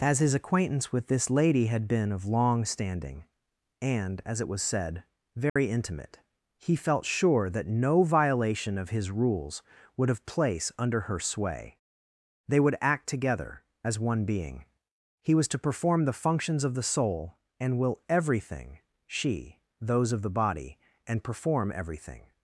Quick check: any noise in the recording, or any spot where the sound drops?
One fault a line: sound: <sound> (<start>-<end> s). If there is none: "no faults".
sound: dropout (5.5-5.6 s)